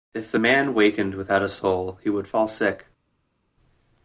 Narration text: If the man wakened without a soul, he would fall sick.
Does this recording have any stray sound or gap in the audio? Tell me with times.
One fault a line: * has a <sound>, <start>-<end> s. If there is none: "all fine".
all fine